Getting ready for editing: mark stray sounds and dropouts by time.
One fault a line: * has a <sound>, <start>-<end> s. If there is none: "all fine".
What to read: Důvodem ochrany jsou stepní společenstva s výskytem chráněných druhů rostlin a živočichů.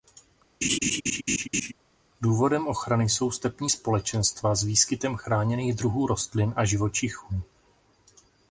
* has a laugh, 0.6-1.7 s